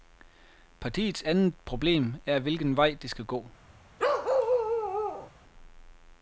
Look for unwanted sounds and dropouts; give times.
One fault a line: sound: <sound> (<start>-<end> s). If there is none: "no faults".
sound: bark (4.0-5.3 s)